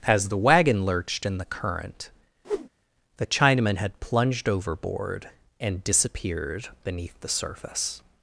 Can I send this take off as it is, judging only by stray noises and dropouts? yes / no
no